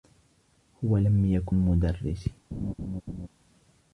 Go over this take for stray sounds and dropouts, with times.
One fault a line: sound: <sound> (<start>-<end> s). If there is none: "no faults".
sound: laugh (2.5-3.3 s)